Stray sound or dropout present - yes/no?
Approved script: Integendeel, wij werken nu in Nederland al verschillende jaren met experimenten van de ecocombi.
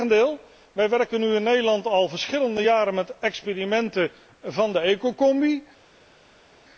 no